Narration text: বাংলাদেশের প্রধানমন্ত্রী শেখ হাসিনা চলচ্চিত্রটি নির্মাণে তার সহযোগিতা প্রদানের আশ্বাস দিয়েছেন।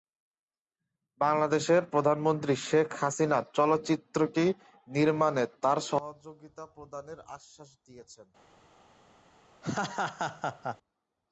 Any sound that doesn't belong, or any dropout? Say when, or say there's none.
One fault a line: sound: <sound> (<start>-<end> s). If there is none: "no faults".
sound: laugh (9.6-10.8 s)